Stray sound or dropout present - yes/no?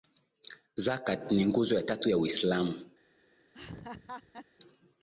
yes